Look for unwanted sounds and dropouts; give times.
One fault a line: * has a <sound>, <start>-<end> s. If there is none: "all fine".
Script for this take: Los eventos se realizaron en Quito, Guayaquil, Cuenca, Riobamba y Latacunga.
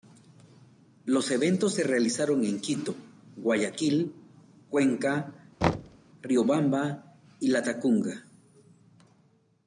* has a thud, 5.6-6.0 s